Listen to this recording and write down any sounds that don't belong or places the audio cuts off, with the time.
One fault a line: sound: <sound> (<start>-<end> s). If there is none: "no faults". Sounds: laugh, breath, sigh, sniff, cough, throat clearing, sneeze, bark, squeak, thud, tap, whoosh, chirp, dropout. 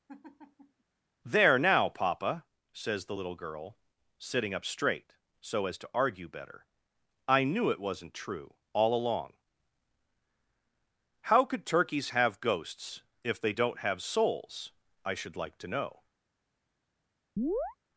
sound: laugh (0.1-0.8 s)
sound: chirp (17.4-17.8 s)